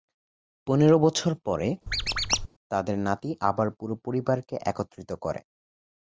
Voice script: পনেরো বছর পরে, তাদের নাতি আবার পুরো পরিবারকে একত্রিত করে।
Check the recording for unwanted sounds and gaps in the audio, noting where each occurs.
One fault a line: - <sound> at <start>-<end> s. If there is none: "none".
- squeak at 1.9-2.5 s